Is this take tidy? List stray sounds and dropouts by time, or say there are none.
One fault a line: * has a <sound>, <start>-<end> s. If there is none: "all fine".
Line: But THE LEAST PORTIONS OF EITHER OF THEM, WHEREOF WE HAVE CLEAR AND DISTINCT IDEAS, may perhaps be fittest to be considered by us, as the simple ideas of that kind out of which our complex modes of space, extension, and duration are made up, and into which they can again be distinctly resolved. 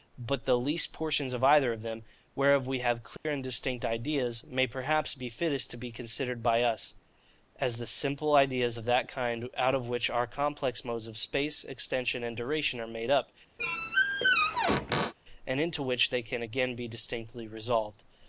* has a dropout, 3.2-3.2 s
* has a squeak, 13.6-15.1 s